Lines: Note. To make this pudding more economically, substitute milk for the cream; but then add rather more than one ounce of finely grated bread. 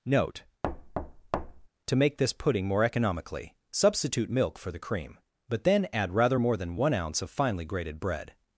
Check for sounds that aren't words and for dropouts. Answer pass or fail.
fail